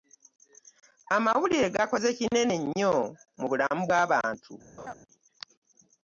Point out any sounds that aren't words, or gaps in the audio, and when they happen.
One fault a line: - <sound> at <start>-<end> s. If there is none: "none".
- laugh at 4.8-4.9 s